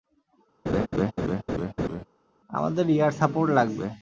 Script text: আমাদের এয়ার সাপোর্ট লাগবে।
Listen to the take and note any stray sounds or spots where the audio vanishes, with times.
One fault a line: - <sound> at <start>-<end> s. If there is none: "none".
- laugh at 0.7-2.0 s